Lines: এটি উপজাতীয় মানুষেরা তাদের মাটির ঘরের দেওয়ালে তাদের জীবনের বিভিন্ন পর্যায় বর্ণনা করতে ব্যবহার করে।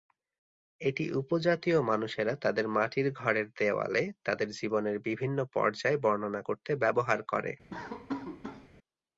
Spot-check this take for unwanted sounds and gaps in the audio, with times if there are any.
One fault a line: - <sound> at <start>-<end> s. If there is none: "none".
- laugh at 7.7-8.7 s